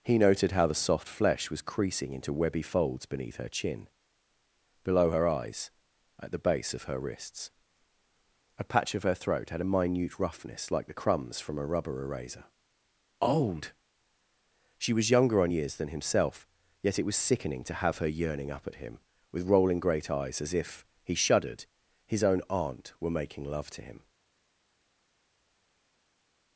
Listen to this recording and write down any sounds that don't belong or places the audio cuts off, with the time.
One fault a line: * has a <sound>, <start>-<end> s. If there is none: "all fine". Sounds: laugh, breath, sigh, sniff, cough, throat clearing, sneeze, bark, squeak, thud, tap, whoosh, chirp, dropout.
all fine